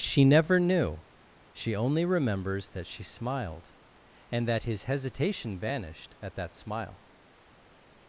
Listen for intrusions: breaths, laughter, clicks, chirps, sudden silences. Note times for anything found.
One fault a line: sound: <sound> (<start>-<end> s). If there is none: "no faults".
no faults